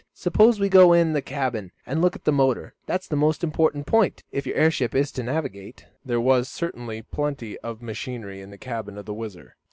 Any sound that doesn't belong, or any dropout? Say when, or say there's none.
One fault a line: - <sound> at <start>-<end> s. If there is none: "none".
none